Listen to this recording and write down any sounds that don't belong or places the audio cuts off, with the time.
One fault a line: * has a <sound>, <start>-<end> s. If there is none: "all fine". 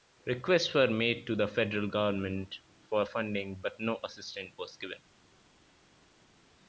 all fine